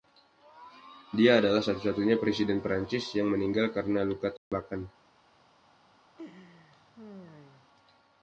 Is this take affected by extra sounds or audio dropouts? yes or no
yes